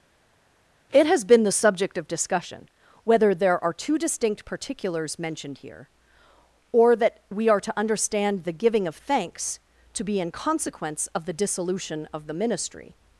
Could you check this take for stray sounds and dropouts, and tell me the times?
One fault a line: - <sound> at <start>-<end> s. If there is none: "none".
none